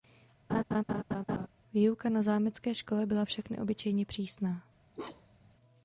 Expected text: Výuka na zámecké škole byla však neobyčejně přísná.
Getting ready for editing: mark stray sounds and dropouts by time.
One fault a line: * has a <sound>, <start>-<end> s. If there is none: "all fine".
* has a laugh, 0.5-1.5 s
* has a bark, 4.9-5.5 s